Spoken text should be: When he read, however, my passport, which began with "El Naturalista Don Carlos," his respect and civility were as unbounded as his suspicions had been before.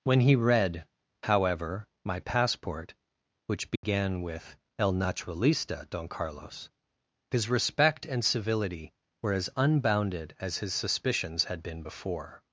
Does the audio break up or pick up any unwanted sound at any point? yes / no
yes